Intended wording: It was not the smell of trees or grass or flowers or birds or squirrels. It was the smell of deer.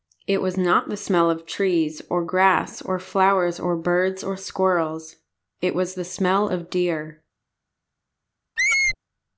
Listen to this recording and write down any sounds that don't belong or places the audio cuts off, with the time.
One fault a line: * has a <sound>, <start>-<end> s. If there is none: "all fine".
* has a squeak, 8.6-9.0 s